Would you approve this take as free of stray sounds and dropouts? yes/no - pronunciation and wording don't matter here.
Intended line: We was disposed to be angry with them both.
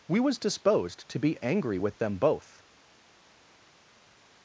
yes